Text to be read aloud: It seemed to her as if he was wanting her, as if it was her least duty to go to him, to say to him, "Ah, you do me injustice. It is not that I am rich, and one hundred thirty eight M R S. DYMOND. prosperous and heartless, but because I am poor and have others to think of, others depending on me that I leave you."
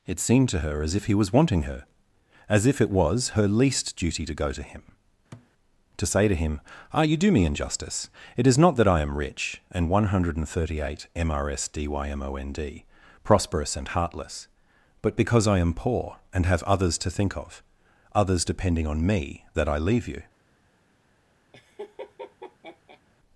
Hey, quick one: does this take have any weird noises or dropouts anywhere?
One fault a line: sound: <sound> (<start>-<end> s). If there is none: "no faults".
sound: thud (5.3-5.5 s)
sound: laugh (21.5-23.0 s)